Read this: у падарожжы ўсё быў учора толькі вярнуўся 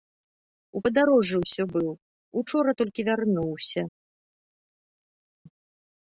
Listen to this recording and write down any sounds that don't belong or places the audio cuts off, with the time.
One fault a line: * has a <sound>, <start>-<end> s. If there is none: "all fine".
all fine